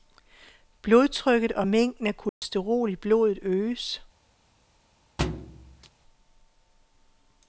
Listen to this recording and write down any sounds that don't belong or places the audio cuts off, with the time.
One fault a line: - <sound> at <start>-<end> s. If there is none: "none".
- dropout at 2.3-2.4 s
- thud at 5.2-5.9 s